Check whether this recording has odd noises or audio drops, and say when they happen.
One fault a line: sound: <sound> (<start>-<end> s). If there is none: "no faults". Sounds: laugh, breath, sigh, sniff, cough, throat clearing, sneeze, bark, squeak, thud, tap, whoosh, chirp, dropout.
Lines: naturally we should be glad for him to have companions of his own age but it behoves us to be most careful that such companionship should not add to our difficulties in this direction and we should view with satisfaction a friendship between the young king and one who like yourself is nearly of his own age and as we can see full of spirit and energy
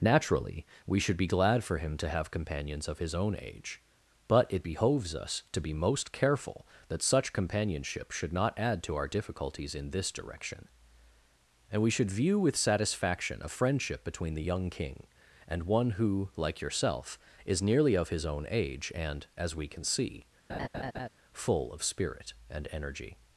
sound: laugh (20.5-21.1 s)